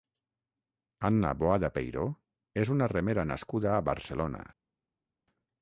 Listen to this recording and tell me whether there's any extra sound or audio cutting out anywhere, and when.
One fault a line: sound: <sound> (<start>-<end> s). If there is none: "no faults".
no faults